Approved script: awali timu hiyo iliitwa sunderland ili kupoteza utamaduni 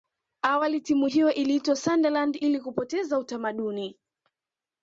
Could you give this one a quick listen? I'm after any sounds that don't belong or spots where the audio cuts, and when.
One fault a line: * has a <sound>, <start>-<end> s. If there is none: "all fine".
all fine